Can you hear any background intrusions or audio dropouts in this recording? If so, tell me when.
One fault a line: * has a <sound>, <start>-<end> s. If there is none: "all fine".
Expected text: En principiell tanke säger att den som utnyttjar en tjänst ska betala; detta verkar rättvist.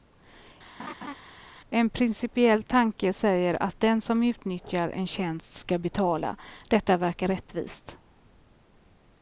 * has a laugh, 0.8-1.1 s